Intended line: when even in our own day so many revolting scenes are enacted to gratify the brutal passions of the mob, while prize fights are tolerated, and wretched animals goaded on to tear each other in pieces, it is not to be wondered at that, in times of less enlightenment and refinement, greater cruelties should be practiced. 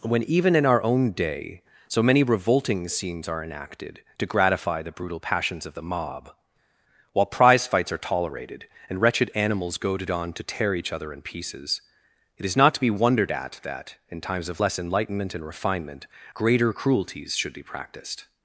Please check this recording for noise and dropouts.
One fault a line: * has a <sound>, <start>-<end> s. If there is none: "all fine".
all fine